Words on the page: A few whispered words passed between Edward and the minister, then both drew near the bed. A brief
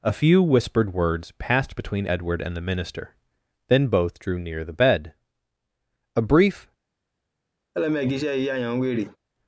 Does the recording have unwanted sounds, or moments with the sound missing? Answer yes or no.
yes